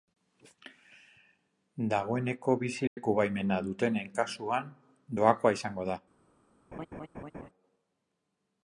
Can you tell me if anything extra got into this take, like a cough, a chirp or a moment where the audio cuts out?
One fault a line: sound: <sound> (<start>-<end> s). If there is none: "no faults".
sound: dropout (2.9-3.0 s)
sound: laugh (6.7-7.5 s)